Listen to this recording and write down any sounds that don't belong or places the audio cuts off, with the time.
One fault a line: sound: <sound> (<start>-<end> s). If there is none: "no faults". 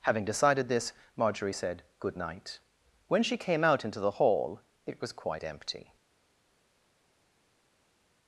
no faults